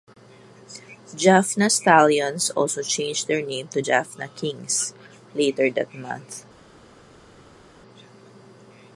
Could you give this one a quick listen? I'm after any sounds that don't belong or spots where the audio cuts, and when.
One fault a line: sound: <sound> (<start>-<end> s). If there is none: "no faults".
no faults